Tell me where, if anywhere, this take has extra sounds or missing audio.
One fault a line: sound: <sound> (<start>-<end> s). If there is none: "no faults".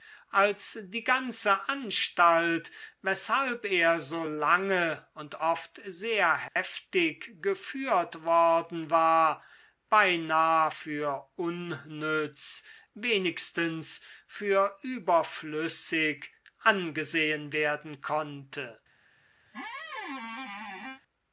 sound: dropout (6.5-6.6 s)
sound: squeak (19.5-21.0 s)